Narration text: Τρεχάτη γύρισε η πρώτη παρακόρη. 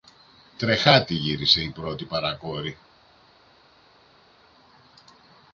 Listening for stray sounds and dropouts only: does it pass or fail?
pass